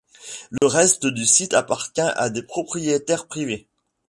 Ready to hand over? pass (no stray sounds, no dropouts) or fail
fail